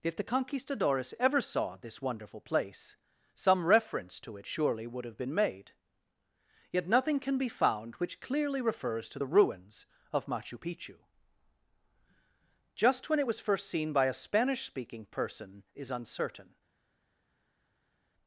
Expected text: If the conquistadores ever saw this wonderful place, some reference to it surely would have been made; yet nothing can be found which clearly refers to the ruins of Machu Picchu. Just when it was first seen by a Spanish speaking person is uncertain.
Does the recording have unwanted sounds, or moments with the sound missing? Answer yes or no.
no